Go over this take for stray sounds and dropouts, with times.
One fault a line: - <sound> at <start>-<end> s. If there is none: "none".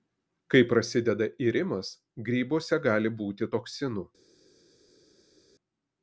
none